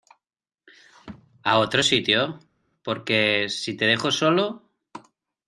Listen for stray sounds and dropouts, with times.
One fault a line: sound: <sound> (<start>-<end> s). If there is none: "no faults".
no faults